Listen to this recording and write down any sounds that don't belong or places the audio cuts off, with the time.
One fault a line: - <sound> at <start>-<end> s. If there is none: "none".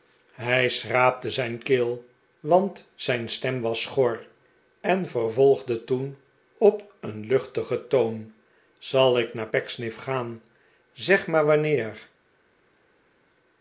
none